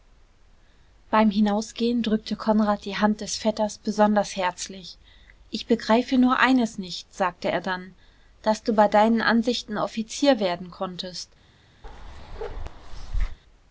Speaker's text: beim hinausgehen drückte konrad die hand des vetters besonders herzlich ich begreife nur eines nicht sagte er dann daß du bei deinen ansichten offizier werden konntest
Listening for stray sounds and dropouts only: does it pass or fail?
fail